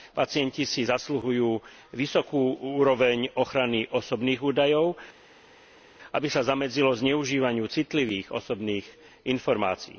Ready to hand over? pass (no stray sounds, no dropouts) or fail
pass